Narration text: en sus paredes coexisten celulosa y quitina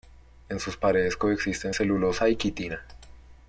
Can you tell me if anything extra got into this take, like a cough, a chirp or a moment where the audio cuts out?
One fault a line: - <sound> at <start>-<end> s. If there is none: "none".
none